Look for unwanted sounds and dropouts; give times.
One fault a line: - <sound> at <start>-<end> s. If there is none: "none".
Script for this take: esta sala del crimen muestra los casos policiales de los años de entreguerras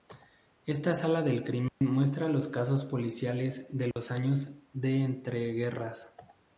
- dropout at 1.7-1.8 s
- dropout at 3.9-4.0 s